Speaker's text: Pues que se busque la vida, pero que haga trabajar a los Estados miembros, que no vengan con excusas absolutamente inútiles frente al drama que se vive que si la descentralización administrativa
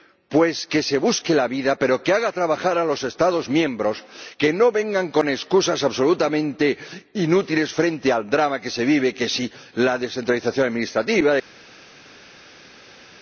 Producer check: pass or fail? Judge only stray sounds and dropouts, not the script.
pass